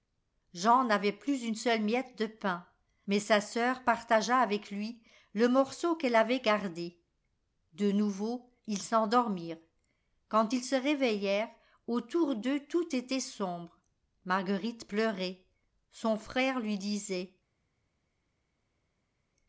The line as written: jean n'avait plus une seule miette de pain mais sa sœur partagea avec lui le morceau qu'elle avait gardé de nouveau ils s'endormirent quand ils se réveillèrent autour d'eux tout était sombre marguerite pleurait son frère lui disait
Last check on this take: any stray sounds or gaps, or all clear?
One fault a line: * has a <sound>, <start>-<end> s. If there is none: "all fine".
all fine